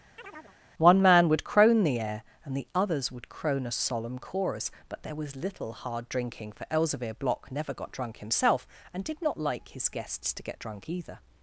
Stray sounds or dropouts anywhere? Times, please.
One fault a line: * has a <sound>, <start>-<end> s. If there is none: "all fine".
* has a chirp, 0.2-0.6 s